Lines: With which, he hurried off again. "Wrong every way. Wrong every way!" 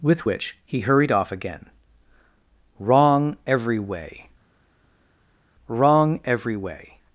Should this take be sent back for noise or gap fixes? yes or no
no